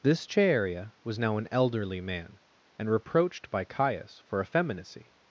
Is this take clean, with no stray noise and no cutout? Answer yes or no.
yes